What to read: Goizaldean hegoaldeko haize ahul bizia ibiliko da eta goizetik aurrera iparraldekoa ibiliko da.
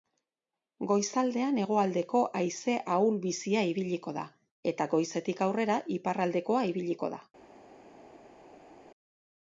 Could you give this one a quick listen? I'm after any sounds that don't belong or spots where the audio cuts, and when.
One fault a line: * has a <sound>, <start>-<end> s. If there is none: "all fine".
all fine